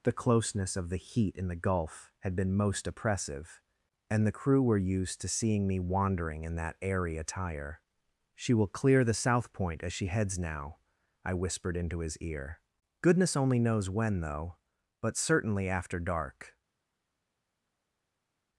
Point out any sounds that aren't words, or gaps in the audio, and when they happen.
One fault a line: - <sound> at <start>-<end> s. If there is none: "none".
none